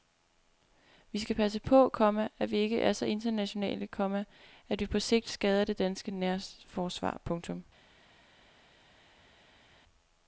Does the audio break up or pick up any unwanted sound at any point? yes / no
no